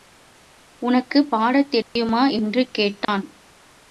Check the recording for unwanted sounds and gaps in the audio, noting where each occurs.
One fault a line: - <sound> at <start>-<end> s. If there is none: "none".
- dropout at 1.8-2.0 s
- dropout at 3.0-3.1 s